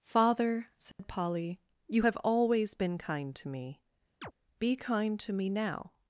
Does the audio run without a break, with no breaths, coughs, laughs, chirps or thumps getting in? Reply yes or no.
no